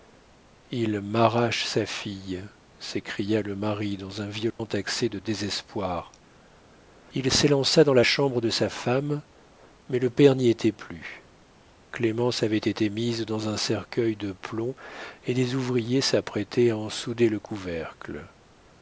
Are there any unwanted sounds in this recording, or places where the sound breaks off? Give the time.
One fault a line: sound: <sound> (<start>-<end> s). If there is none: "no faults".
sound: dropout (4.5-4.6 s)